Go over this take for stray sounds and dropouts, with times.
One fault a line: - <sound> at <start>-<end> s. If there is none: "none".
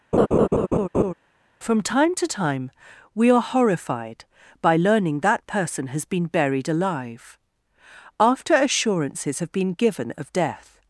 - laugh at 0.1-1.1 s